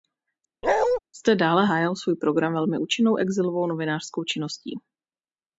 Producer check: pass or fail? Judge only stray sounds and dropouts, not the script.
fail